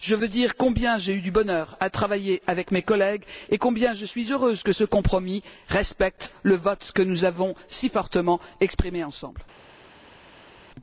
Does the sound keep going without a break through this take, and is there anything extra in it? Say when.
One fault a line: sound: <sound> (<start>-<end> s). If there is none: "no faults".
no faults